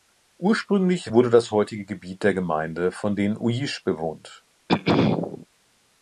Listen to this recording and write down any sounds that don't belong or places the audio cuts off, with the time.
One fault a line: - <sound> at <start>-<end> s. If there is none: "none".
- throat clearing at 4.7-5.5 s